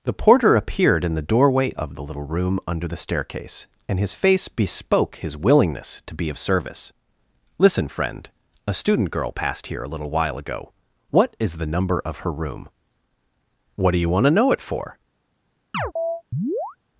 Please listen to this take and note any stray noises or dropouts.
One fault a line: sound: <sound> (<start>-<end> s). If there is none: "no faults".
sound: chirp (15.7-16.8 s)